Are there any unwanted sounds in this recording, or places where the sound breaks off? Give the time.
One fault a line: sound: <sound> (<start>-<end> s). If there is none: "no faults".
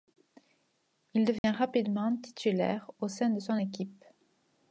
sound: dropout (1.4-1.4 s)